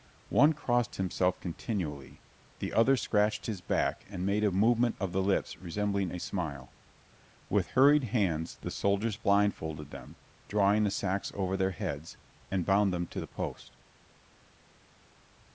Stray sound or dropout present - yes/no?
no